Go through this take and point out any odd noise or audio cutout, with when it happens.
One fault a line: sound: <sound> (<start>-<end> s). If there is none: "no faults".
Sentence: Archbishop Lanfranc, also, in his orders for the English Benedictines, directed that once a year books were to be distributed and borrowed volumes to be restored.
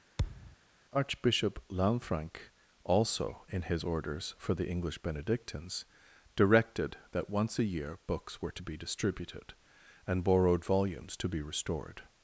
sound: thud (0.2-0.6 s)